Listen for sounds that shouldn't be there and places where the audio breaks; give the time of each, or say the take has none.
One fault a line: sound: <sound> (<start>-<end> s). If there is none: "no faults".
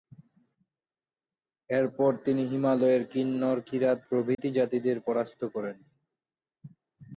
sound: dropout (4.3-4.4 s)